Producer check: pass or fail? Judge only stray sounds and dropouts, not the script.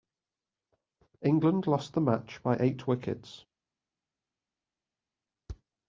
pass